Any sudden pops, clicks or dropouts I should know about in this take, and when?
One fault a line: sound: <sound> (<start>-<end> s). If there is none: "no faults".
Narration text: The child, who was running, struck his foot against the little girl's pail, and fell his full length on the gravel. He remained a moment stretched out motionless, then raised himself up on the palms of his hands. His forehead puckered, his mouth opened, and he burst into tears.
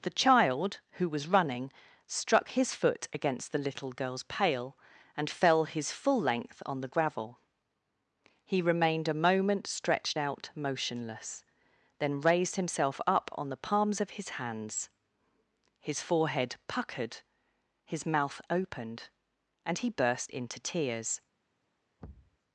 sound: thud (22.0-22.4 s)